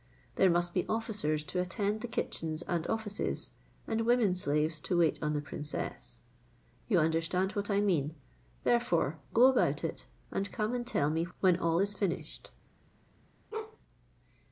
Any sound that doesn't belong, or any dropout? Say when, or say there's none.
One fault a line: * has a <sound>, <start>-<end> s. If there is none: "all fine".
* has a bark, 13.5-13.8 s